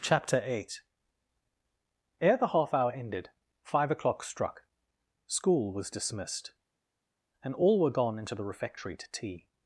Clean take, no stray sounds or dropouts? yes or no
yes